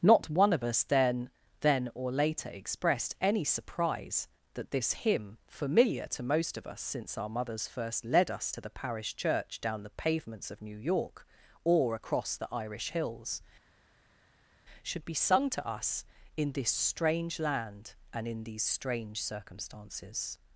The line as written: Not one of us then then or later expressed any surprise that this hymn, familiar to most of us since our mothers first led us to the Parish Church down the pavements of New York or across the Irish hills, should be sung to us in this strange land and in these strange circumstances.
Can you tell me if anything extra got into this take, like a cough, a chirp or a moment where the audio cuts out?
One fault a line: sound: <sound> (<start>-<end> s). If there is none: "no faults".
no faults